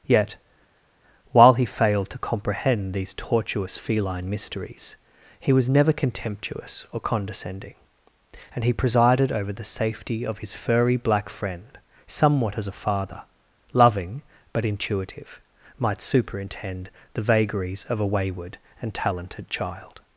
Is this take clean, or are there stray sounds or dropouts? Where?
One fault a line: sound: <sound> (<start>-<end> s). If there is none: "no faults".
no faults